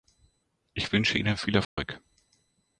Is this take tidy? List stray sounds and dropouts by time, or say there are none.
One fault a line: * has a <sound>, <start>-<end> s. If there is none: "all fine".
* has a dropout, 1.6-1.8 s